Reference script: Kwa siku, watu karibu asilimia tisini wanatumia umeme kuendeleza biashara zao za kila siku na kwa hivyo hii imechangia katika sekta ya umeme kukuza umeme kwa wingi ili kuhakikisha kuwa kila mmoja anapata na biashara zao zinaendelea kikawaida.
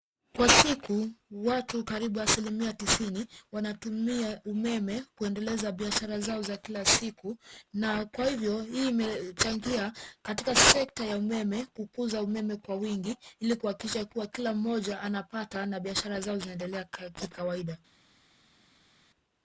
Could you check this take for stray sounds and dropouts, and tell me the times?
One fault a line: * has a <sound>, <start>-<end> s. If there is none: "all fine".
all fine